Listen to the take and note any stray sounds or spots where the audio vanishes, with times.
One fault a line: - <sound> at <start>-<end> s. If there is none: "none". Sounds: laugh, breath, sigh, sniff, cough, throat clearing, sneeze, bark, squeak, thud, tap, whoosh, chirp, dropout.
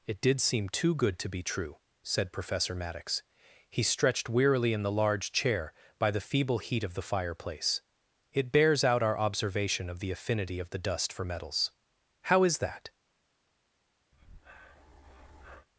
- breath at 14.1-15.7 s